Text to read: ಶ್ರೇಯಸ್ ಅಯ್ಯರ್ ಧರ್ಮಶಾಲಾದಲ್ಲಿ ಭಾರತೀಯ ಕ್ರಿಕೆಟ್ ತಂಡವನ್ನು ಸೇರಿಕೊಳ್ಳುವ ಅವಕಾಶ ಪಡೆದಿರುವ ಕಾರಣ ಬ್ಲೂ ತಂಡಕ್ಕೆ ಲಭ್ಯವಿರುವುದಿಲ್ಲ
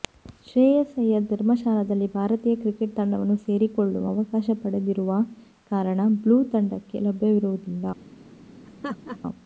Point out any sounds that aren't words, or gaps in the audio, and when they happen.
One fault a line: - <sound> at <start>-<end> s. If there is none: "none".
- laugh at 8.7-9.2 s